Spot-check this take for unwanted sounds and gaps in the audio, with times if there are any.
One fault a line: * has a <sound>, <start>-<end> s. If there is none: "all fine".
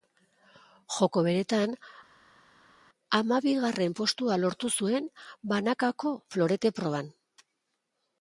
all fine